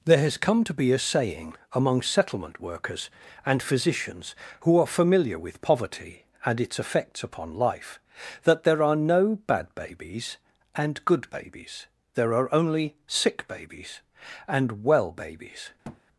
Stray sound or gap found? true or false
true